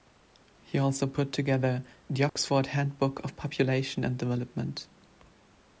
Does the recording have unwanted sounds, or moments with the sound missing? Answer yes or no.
yes